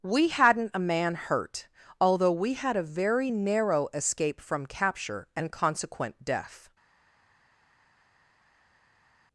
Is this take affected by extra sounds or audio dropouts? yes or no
no